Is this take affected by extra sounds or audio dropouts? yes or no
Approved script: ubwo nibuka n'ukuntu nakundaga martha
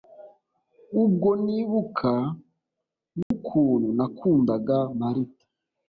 yes